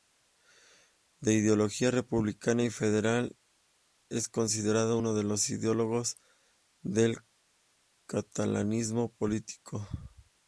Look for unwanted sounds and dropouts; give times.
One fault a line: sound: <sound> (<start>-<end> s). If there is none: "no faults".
no faults